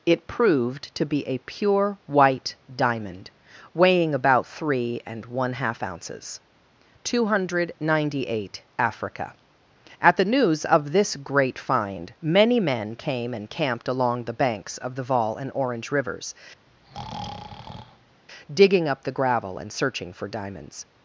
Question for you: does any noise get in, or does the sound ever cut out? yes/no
yes